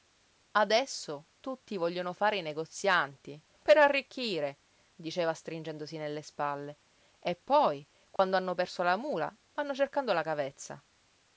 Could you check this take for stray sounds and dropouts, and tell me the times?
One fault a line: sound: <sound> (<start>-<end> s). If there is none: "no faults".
sound: dropout (8.2-8.2 s)